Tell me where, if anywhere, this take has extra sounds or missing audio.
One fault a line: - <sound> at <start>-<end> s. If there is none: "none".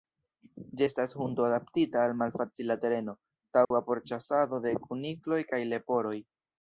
- dropout at 3.6-3.7 s